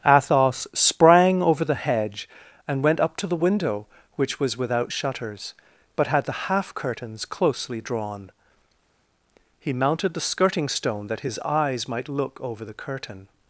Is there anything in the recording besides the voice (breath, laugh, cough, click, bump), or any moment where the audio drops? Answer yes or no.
no